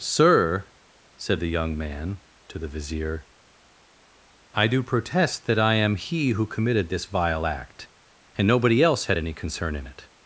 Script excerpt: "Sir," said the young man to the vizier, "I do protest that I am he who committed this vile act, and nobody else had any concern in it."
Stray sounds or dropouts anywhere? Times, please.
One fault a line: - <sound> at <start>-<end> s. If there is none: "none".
none